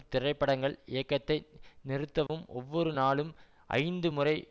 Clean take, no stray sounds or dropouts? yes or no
no